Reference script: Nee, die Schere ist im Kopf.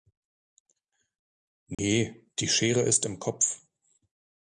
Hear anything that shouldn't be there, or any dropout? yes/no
yes